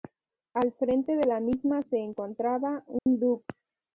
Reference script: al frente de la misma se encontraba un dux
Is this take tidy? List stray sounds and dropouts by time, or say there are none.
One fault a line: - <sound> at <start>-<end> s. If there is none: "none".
- dropout at 3.0-3.1 s